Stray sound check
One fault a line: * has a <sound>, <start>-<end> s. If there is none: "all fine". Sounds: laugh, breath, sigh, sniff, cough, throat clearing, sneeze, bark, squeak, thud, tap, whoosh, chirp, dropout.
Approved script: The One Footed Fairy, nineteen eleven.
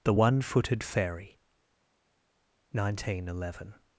all fine